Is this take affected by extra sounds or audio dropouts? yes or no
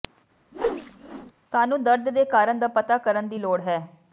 yes